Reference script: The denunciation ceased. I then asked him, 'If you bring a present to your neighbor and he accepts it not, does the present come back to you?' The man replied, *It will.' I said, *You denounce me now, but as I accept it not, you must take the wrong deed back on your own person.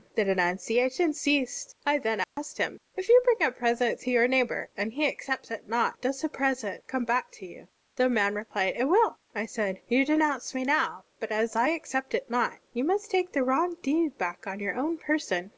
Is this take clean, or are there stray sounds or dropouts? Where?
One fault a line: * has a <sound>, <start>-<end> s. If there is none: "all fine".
* has a dropout, 2.2-2.4 s